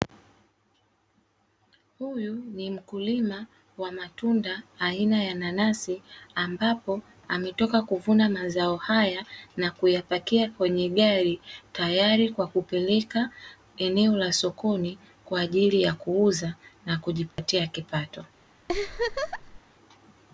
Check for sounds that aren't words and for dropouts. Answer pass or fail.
fail